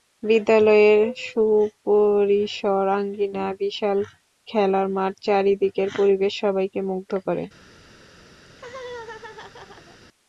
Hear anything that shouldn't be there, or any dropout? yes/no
yes